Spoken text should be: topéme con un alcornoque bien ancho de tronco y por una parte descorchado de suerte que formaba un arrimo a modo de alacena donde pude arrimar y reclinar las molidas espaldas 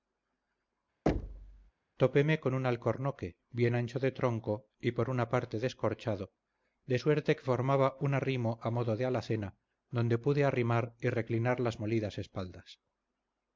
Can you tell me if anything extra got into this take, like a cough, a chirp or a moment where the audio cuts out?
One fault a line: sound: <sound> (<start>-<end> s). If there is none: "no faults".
sound: thud (1.1-1.7 s)